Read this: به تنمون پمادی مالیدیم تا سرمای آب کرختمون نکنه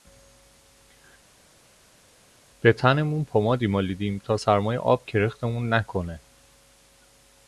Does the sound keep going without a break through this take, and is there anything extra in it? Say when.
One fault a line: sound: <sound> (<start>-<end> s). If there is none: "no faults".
no faults